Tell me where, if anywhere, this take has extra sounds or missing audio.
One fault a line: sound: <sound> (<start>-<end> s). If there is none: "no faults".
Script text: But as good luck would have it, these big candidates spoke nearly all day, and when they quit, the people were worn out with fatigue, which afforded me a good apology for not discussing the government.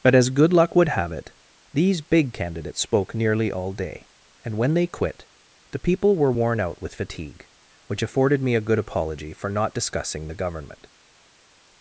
no faults